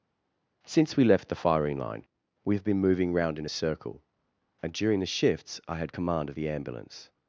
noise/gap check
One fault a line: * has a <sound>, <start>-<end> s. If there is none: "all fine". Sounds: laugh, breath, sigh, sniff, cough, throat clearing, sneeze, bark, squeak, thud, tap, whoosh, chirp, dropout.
all fine